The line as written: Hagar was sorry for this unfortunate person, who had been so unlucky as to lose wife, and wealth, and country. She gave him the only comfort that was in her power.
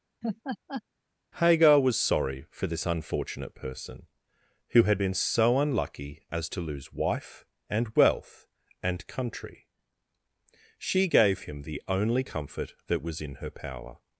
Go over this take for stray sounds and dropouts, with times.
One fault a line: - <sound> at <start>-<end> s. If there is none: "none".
- laugh at 0.2-0.8 s